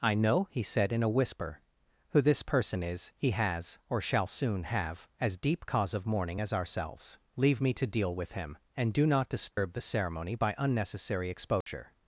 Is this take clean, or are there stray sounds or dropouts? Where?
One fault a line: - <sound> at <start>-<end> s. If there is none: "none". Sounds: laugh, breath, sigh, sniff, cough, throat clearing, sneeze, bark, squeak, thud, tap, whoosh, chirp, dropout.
- dropout at 9.5-9.6 s
- dropout at 11.6-11.7 s